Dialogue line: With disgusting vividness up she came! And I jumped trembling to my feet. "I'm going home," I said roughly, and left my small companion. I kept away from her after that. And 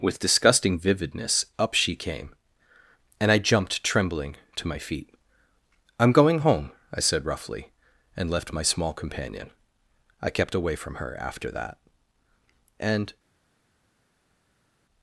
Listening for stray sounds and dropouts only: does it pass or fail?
pass